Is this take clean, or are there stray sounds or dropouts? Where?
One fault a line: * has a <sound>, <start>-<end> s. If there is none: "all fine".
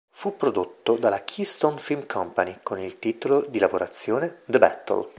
all fine